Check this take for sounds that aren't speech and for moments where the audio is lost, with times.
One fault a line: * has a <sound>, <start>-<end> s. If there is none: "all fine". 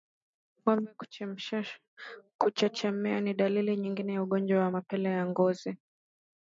all fine